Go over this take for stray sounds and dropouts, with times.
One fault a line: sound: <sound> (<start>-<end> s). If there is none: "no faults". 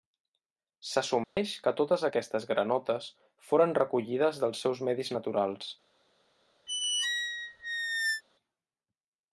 sound: dropout (1.2-1.4 s)
sound: squeak (6.7-8.2 s)